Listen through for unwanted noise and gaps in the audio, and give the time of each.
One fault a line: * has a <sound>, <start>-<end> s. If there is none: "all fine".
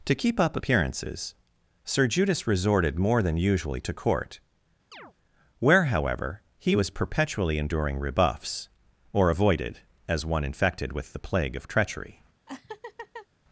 * has a chirp, 4.9-5.1 s
* has a laugh, 12.5-13.3 s